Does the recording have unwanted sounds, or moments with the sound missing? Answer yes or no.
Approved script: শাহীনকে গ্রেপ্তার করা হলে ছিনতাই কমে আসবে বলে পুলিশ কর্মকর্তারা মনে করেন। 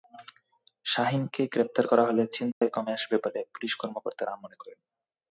yes